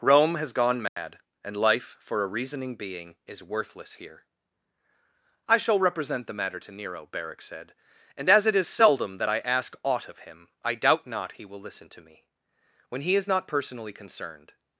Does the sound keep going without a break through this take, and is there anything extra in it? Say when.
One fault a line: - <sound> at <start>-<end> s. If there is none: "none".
- dropout at 0.9-1.0 s